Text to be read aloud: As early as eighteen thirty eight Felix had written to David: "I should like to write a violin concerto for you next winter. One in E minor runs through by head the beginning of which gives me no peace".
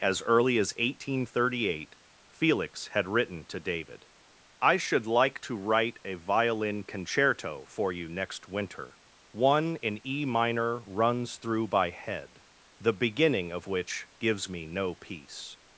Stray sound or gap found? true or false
false